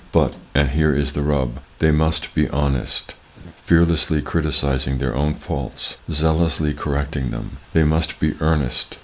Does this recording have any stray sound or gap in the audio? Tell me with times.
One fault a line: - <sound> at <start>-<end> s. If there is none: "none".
- laugh at 3.4-3.5 s